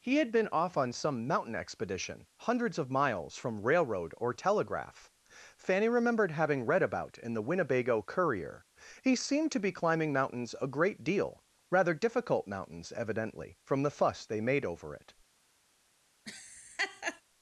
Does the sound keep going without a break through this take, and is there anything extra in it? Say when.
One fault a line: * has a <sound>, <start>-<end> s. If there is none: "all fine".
* has a laugh, 16.3-17.2 s